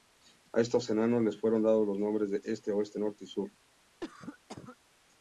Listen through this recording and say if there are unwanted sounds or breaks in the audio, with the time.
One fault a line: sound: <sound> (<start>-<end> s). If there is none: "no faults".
sound: cough (4.0-4.8 s)